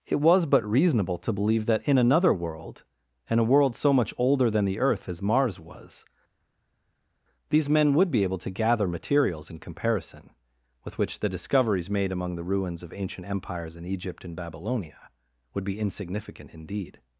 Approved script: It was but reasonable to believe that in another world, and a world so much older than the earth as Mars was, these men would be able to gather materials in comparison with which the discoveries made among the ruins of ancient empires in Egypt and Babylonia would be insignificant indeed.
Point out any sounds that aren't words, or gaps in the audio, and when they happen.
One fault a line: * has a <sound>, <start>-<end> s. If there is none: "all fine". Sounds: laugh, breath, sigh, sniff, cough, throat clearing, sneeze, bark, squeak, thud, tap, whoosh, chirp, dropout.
all fine